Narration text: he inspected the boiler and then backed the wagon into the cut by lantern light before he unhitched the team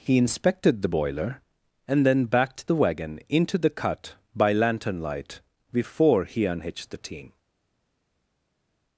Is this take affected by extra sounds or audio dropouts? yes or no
no